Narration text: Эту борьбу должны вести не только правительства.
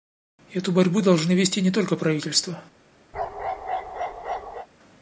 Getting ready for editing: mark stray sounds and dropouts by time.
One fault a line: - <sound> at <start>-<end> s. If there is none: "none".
- bark at 3.1-4.7 s